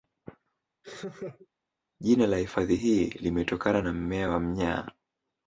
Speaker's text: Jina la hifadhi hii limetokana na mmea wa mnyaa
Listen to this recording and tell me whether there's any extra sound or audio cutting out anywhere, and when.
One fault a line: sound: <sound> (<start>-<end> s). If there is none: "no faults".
sound: laugh (0.8-1.5 s)